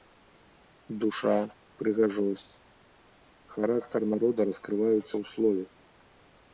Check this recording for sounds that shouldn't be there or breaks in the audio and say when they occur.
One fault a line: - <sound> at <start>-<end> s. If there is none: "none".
none